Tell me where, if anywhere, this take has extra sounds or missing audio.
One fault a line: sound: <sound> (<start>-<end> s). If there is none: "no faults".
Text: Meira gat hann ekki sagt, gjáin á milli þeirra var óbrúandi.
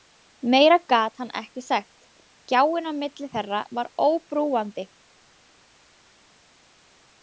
no faults